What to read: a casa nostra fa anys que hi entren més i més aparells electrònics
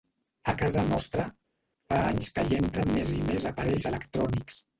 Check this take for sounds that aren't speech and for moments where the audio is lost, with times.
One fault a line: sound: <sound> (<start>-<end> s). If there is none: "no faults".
no faults